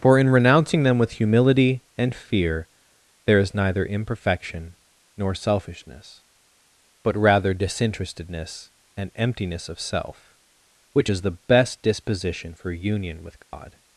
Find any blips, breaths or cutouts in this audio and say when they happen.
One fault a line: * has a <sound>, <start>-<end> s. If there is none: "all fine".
* has a dropout, 13.4-13.5 s